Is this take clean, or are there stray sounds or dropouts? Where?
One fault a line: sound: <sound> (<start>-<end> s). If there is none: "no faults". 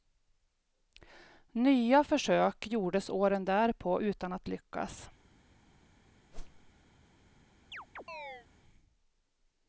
sound: whoosh (6.3-6.7 s)
sound: chirp (7.7-8.5 s)